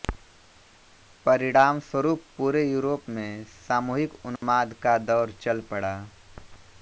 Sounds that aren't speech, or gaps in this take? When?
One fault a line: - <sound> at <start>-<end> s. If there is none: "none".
- dropout at 4.4-4.4 s